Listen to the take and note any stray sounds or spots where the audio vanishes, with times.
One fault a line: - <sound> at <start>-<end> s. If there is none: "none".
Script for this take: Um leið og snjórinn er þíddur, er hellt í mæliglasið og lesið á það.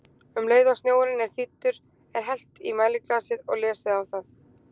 none